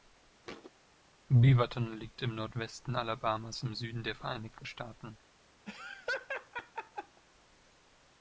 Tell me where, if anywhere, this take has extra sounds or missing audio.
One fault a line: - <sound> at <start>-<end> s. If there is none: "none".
- thud at 0.4-0.7 s
- laugh at 5.7-7.2 s